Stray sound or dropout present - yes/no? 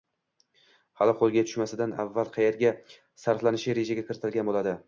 no